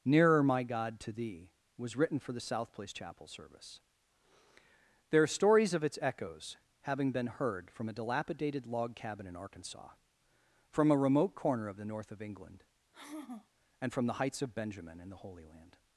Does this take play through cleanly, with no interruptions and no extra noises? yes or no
no